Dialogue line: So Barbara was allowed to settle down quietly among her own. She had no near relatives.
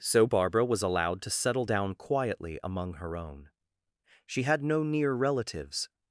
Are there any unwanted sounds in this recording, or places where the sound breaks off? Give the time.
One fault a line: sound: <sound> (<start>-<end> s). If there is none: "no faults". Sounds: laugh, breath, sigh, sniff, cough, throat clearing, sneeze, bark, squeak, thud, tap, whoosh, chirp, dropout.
no faults